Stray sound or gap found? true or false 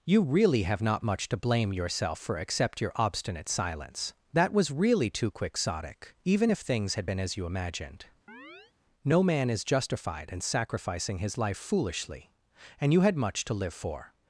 true